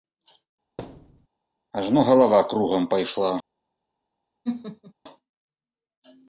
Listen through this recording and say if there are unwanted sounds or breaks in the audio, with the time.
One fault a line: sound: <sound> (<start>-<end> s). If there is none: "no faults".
sound: thud (0.8-1.3 s)
sound: laugh (4.4-4.9 s)